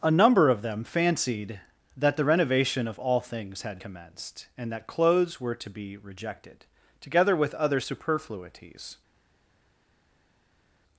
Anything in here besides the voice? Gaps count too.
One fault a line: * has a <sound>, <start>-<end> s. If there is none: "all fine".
all fine